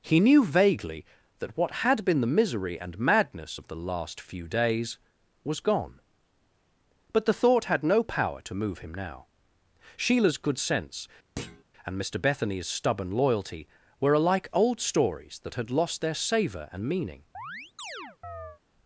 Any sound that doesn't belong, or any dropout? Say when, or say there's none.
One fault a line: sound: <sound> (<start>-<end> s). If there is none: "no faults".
sound: thud (11.4-11.6 s)
sound: chirp (17.3-18.6 s)